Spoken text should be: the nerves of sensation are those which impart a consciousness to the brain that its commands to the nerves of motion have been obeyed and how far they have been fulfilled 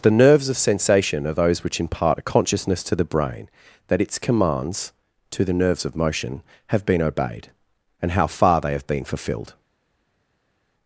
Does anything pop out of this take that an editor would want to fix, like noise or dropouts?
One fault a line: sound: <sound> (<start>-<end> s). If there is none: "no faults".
no faults